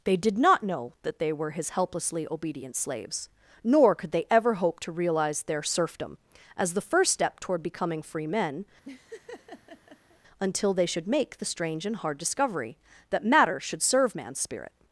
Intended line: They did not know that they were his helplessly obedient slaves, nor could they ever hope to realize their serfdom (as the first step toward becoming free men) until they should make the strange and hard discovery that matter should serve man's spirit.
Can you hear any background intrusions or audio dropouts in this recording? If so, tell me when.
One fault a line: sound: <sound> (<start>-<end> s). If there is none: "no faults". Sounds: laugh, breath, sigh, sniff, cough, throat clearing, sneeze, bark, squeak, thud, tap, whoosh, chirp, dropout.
sound: laugh (8.8-10.2 s)